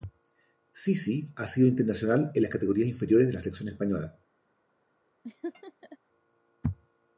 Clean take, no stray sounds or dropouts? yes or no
no